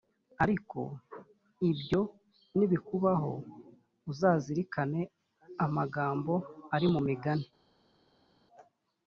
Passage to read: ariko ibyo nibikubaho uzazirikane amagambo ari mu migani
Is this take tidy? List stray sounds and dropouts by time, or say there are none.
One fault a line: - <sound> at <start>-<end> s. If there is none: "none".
none